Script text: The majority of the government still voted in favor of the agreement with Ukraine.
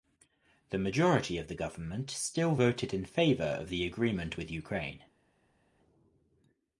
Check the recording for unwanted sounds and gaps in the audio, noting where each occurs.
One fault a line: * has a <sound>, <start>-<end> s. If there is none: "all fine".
all fine